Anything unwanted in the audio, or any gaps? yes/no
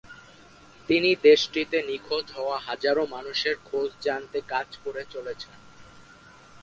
no